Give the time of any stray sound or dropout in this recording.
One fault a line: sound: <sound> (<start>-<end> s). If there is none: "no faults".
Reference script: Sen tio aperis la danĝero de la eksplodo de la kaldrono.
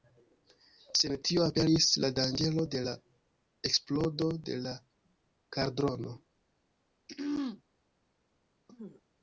sound: throat clearing (7.1-7.6 s)
sound: throat clearing (8.7-9.0 s)